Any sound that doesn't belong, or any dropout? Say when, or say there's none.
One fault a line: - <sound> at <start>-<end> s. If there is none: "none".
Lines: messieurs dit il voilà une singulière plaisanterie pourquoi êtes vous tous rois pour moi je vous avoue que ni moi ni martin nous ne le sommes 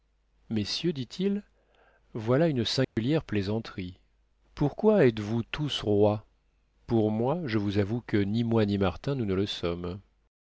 - dropout at 2.8-3.0 s